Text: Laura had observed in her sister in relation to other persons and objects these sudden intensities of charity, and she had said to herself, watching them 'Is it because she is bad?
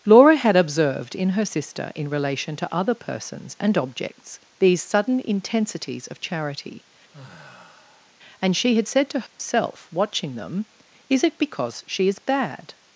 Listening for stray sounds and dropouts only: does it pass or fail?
fail